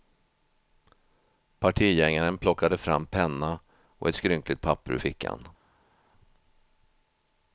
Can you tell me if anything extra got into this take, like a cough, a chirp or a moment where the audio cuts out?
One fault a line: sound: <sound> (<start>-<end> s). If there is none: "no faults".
no faults